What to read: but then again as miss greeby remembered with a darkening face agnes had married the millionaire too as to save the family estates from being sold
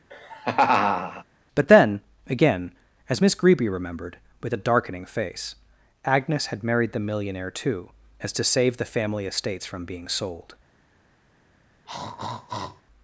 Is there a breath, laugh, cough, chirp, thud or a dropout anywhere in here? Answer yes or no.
yes